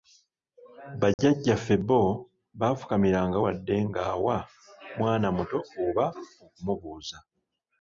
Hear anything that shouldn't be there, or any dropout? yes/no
yes